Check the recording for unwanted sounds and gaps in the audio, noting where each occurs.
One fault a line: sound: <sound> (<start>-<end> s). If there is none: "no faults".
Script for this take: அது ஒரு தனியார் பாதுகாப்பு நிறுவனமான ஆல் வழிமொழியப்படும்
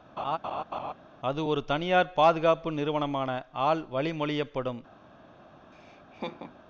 sound: laugh (0.2-0.9 s)
sound: laugh (5.7-6.6 s)